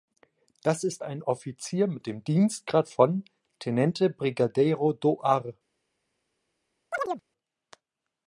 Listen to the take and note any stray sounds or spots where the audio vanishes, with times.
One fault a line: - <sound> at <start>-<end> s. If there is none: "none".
- chirp at 6.9-7.2 s